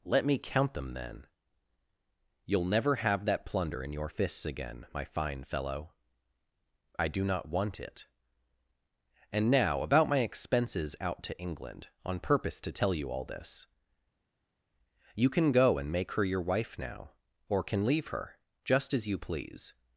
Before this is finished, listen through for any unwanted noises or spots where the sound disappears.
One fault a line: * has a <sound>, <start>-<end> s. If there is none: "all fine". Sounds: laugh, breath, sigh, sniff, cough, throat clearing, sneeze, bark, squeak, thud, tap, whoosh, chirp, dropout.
all fine